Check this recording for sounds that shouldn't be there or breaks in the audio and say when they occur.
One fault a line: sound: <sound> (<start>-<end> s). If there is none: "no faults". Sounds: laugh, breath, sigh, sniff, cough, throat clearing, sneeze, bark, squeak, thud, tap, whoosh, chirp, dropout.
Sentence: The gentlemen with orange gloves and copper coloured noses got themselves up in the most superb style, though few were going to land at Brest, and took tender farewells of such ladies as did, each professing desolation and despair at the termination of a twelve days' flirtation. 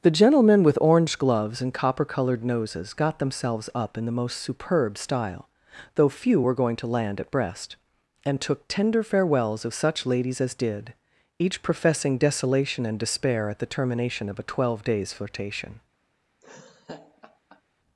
sound: laugh (16.4-17.6 s)